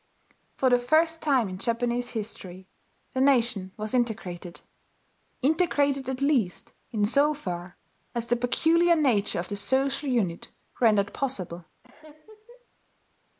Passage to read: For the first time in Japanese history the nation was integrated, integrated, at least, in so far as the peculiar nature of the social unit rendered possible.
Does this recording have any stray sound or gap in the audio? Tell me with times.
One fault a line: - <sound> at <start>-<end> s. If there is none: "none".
- laugh at 11.8-12.7 s